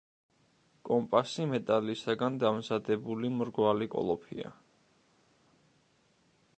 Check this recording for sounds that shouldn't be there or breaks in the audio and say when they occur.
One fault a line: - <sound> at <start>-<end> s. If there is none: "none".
none